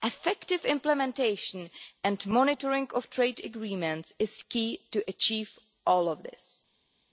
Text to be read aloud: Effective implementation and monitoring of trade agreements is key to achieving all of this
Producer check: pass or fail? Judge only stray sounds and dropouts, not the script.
pass